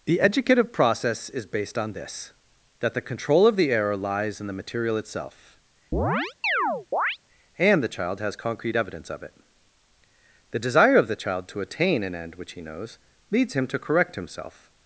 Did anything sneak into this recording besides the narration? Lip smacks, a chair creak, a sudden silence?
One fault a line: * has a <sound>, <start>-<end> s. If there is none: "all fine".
* has a chirp, 5.9-7.2 s